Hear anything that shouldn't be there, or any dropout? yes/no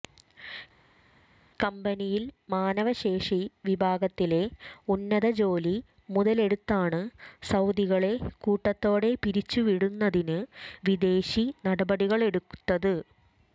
no